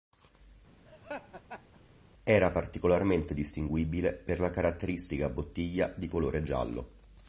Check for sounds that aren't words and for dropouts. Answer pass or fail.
fail